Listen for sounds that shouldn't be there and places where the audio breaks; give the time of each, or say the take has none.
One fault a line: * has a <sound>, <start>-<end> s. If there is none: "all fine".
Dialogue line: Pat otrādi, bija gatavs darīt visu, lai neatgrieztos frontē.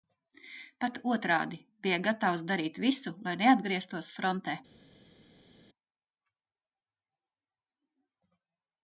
all fine